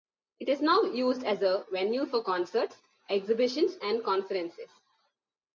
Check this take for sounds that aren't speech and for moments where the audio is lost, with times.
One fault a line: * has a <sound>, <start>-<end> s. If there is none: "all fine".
all fine